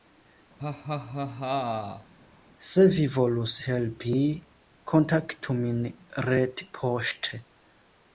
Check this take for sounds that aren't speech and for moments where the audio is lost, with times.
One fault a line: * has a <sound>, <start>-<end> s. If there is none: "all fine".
* has a laugh, 0.6-2.1 s